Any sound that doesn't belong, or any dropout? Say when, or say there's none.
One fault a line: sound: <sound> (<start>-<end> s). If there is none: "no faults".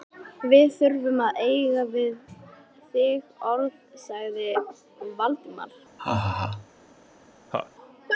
sound: laugh (6.0-6.7 s)
sound: laugh (7.5-7.7 s)